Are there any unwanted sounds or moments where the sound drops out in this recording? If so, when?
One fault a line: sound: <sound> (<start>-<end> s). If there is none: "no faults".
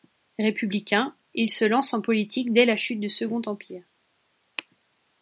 no faults